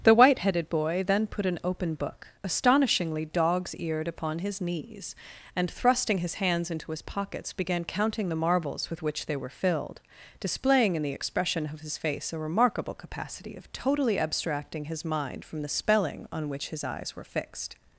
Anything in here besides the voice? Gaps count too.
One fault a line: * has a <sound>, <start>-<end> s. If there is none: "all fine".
all fine